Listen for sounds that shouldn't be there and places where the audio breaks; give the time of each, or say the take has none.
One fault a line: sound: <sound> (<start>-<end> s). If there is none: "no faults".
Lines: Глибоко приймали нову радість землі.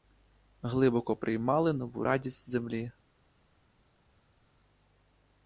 no faults